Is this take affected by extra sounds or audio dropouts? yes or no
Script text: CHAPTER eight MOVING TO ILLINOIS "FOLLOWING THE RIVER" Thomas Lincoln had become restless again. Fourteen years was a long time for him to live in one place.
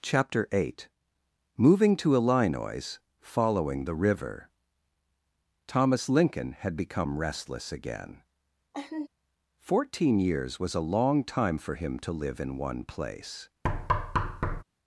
yes